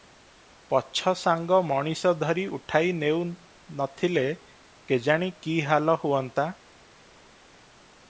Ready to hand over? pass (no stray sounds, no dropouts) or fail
pass